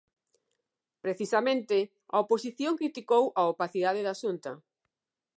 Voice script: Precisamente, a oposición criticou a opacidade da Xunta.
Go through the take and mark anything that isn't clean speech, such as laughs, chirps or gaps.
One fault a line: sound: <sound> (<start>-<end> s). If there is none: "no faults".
no faults